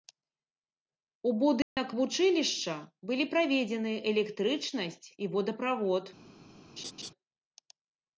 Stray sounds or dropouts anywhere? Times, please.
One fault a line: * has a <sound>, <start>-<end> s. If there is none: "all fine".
* has a dropout, 1.6-1.8 s
* has a laugh, 6.8-7.1 s